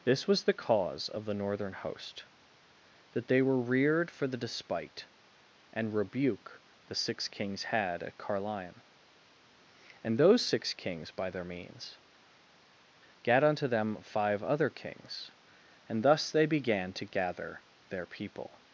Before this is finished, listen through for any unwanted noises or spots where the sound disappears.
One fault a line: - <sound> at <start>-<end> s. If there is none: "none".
none